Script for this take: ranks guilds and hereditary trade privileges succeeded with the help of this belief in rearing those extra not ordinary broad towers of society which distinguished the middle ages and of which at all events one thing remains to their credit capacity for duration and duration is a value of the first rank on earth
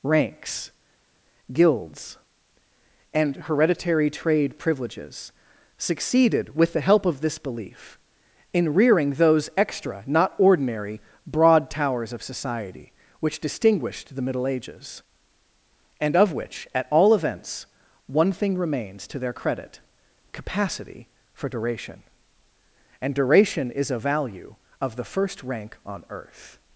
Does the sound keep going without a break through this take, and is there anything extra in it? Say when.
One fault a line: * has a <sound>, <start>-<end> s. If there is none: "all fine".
all fine